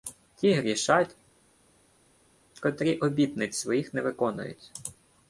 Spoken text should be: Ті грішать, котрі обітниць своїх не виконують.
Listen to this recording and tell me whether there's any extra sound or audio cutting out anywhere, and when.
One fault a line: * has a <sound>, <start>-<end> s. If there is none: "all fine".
all fine